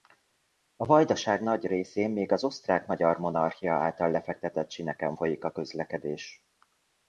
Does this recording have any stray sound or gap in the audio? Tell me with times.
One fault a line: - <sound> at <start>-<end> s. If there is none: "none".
none